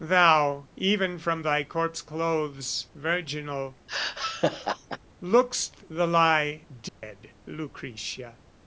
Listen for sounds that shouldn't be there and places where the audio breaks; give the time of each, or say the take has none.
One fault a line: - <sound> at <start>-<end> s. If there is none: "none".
- laugh at 3.9-5.0 s
- dropout at 6.9-7.0 s